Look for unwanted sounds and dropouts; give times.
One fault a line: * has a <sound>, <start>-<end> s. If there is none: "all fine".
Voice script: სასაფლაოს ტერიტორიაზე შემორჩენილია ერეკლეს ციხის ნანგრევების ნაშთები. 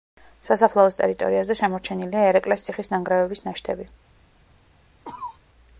* has a cough, 5.0-5.4 s